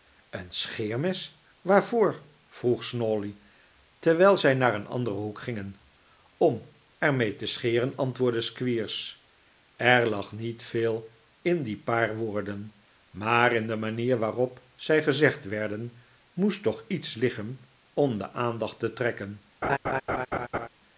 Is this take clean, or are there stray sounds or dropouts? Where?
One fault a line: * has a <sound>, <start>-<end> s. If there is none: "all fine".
* has a laugh, 19.6-20.7 s